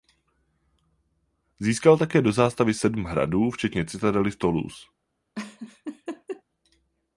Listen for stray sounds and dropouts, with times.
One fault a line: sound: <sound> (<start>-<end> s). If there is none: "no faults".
sound: laugh (5.4-6.4 s)